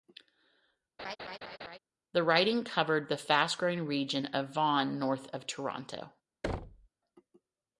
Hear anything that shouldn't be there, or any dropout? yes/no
yes